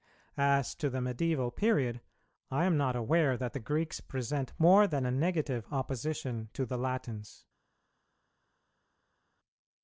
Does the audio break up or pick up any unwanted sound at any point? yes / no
no